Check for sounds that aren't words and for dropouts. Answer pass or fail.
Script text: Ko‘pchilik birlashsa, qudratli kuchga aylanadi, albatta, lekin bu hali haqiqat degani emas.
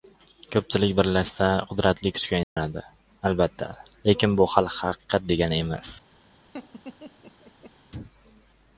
fail